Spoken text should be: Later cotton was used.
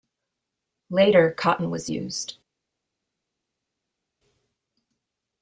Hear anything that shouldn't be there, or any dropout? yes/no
no